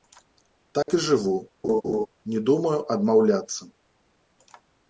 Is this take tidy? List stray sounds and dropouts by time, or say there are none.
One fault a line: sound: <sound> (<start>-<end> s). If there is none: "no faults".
sound: dropout (0.8-0.9 s)
sound: laugh (1.6-2.1 s)